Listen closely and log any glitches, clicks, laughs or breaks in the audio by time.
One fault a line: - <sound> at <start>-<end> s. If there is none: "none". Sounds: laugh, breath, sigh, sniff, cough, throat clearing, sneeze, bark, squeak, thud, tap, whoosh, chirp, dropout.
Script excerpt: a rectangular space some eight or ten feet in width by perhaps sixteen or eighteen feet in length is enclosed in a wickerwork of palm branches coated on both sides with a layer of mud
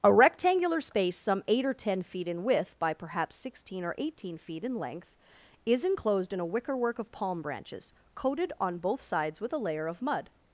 none